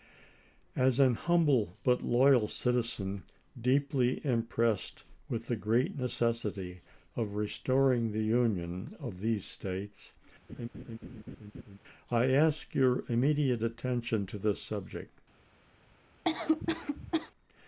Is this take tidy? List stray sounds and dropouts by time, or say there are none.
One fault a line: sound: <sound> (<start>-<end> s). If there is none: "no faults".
sound: laugh (10.5-11.8 s)
sound: cough (16.2-17.3 s)